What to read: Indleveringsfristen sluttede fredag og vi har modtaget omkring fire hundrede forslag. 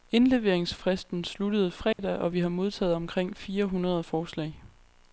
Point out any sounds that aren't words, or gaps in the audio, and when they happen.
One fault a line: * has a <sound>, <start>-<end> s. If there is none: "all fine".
* has a dropout, 1.9-2.0 s